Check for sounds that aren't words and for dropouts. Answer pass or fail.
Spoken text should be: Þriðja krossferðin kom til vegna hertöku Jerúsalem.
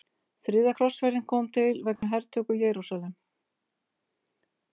fail